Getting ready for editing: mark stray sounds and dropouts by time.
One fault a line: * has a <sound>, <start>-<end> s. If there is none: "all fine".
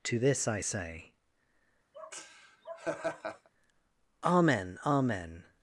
* has a laugh, 1.9-3.5 s